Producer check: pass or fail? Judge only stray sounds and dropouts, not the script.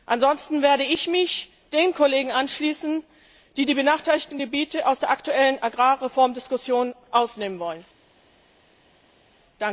pass